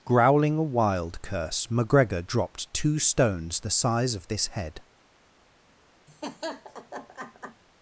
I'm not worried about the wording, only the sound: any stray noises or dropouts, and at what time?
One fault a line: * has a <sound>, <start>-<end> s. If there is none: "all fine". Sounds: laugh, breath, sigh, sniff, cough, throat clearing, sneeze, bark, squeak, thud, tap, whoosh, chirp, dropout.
* has a laugh, 6.1-7.6 s